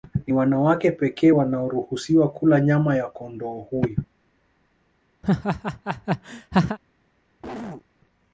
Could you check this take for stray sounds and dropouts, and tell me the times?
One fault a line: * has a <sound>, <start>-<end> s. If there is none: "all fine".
* has a laugh, 5.2-6.8 s
* has a cough, 7.4-7.9 s